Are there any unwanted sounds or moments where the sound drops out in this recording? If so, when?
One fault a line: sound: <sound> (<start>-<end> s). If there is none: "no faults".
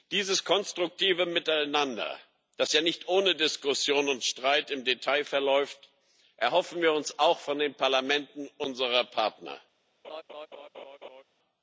sound: laugh (10.0-11.2 s)